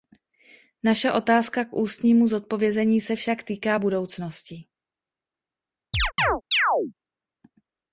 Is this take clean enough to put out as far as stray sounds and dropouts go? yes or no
no